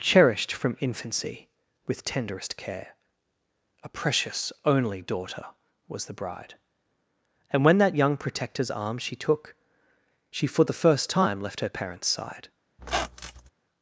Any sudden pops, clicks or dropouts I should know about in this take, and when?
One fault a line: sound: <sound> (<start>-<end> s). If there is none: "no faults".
sound: squeak (12.8-13.5 s)